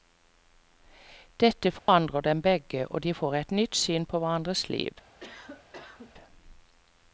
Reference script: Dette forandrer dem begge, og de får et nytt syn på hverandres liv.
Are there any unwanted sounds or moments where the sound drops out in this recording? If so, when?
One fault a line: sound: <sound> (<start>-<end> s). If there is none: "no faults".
sound: dropout (1.8-1.9 s)
sound: cough (5.2-6.1 s)